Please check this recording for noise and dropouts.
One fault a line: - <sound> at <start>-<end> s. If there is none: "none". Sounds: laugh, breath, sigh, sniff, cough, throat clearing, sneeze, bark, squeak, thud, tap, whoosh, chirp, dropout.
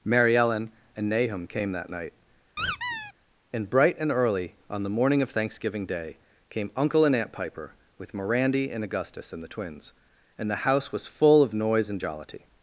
- squeak at 2.6-3.1 s